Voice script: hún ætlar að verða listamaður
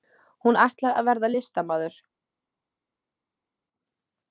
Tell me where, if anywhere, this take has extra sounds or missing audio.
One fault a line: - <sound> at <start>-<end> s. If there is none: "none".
none